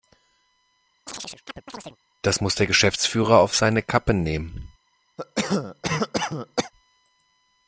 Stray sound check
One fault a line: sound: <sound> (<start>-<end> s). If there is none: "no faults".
sound: chirp (1.1-2.0 s)
sound: cough (5.2-6.7 s)